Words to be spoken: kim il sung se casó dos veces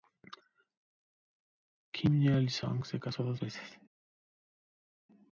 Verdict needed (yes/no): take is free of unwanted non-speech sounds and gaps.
yes